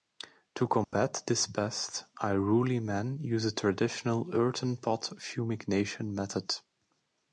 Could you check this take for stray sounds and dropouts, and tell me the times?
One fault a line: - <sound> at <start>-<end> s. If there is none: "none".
- dropout at 0.8-0.9 s